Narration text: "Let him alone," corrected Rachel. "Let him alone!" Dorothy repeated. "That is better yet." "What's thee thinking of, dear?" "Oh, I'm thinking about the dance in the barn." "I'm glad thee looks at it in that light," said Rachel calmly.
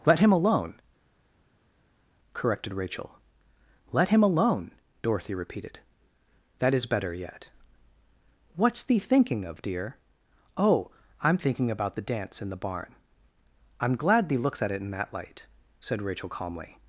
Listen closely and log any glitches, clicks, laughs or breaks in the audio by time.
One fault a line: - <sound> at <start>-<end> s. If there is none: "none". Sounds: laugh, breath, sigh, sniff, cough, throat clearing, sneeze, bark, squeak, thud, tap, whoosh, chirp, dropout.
none